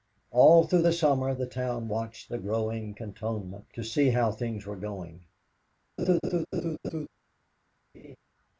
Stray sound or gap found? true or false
true